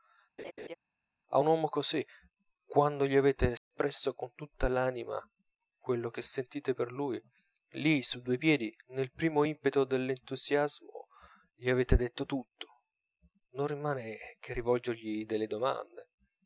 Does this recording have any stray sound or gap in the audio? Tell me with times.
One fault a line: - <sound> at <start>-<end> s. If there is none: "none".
- laugh at 0.4-0.8 s
- dropout at 3.6-3.7 s